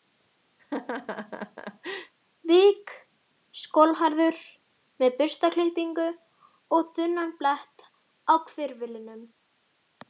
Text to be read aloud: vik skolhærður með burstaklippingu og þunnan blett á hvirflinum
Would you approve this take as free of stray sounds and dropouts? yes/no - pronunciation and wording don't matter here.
no